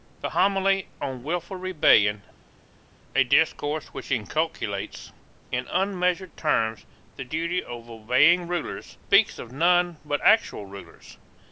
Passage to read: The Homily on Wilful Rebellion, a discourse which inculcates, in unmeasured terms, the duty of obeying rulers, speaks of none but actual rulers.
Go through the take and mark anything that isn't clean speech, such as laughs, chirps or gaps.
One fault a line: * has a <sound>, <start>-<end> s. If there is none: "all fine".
all fine